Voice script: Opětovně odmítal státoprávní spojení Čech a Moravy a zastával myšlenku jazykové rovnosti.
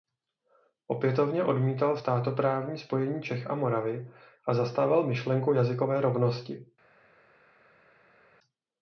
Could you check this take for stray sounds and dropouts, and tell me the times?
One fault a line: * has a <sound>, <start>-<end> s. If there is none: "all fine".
all fine